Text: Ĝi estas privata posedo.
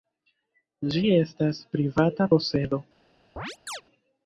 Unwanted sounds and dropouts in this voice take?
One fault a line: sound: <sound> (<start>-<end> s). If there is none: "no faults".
sound: chirp (3.4-3.8 s)